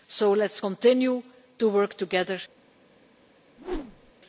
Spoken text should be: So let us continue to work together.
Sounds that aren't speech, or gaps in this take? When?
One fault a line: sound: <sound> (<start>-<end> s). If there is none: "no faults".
sound: whoosh (3.6-4.1 s)